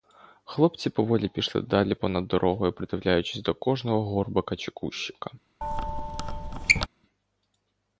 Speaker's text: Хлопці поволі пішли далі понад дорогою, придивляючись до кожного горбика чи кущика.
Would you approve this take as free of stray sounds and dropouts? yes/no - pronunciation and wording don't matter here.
no